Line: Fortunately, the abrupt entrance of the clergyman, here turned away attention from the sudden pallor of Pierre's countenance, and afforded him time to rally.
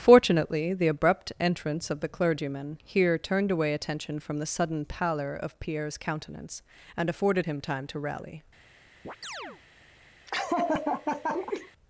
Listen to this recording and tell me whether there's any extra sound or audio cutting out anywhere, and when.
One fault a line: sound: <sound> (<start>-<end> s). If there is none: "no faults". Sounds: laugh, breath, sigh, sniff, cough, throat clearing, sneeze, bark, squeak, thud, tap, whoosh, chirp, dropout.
sound: chirp (9.0-9.6 s)
sound: laugh (10.3-11.7 s)